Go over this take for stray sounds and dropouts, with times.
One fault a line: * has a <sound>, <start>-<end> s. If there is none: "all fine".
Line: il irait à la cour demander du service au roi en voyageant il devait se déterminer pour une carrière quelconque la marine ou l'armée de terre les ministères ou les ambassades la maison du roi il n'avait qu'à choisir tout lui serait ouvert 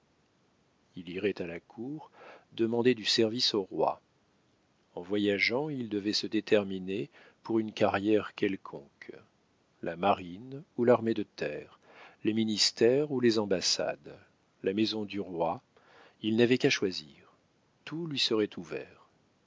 all fine